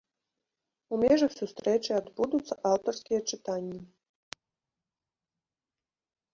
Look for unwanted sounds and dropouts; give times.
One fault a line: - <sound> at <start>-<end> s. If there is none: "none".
none